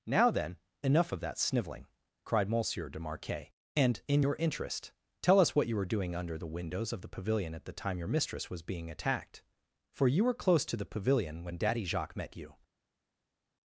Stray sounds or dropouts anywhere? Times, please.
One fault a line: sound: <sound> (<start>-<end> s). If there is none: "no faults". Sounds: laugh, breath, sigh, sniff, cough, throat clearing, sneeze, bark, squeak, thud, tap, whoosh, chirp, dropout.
no faults